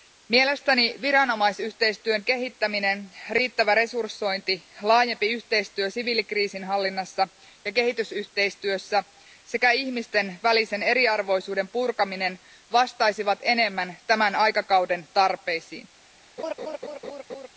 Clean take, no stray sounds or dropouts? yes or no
no